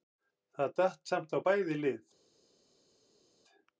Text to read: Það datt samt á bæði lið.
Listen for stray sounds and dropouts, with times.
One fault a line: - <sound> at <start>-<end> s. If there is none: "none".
none